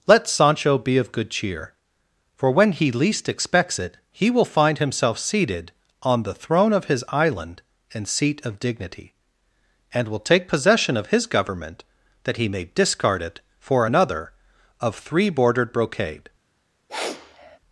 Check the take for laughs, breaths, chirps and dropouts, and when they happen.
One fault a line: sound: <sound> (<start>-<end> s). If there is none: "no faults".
sound: sniff (16.9-17.6 s)